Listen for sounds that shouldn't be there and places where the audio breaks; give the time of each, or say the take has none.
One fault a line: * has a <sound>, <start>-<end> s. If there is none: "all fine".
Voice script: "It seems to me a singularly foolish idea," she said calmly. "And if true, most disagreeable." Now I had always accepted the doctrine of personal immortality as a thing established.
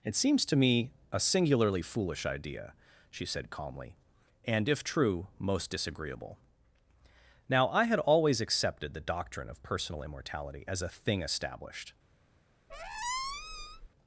* has a squeak, 12.7-13.9 s